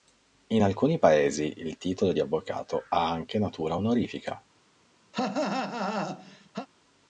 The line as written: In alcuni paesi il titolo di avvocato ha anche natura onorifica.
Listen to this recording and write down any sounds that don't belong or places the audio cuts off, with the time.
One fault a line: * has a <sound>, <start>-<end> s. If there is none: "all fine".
* has a cough, 5.1-6.7 s